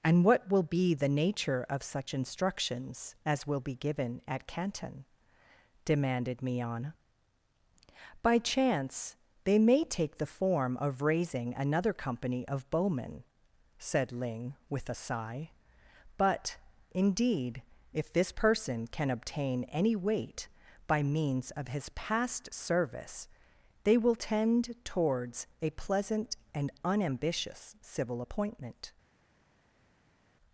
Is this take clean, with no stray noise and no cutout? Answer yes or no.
yes